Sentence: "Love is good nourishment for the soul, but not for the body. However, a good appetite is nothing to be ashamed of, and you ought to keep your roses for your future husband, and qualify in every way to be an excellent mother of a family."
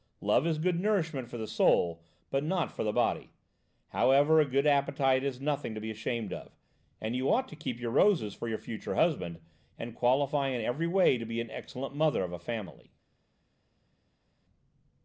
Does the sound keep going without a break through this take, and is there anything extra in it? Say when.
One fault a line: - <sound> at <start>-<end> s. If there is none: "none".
none